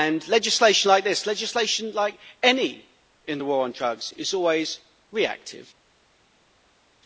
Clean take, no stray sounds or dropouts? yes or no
yes